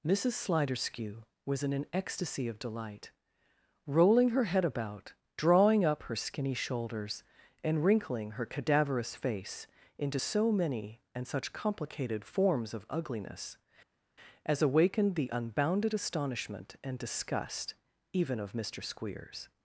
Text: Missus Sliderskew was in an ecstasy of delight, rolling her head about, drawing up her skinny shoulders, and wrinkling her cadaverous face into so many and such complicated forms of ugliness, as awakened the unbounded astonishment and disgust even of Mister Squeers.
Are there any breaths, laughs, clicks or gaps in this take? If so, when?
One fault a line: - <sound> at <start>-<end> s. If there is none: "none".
none